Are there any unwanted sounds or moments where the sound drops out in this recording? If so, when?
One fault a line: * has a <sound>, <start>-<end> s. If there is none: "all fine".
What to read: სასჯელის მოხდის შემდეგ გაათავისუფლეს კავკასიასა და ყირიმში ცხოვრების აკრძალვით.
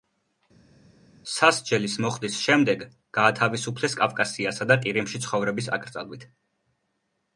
all fine